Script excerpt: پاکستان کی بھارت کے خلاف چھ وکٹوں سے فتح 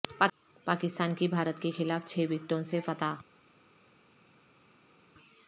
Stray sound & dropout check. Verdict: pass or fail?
pass